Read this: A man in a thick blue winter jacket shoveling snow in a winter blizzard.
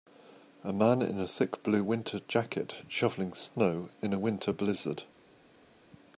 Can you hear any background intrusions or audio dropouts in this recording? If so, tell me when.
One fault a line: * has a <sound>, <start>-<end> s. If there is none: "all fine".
all fine